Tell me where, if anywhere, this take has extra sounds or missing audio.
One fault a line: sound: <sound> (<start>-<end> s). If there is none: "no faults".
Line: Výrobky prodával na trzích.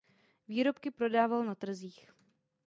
no faults